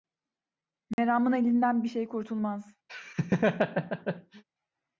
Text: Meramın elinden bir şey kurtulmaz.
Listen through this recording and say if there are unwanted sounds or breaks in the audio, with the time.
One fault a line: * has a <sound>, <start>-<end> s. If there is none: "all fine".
* has a dropout, 0.9-1.0 s
* has a laugh, 2.9-4.4 s